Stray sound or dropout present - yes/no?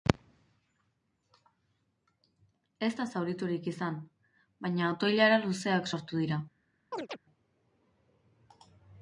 yes